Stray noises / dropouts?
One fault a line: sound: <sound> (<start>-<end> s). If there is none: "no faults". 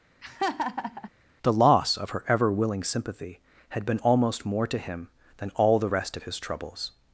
sound: laugh (0.2-1.1 s)